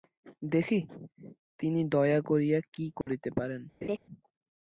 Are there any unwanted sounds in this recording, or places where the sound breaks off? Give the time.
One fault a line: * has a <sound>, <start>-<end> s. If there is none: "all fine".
* has a dropout, 3.0-3.1 s
* has a laugh, 3.8-4.0 s